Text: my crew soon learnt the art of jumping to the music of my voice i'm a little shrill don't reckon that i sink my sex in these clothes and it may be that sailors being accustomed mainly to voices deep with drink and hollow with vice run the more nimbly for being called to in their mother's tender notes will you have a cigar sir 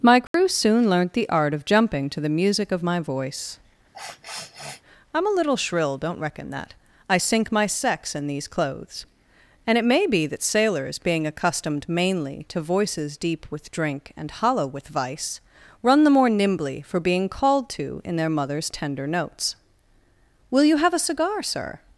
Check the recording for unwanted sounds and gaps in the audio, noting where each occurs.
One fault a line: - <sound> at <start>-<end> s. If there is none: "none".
- dropout at 0.3-0.3 s
- sniff at 3.9-4.8 s